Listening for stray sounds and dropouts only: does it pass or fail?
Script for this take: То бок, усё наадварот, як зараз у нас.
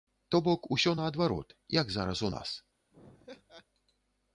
fail